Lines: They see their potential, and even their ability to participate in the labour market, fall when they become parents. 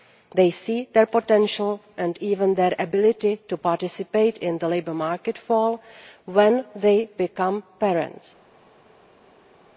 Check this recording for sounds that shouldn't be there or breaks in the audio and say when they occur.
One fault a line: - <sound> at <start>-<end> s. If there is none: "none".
none